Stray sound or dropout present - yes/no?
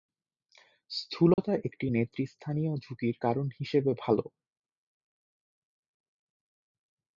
yes